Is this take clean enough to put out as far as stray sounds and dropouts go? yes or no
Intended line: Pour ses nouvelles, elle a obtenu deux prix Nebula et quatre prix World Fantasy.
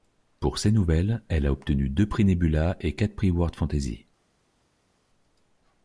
yes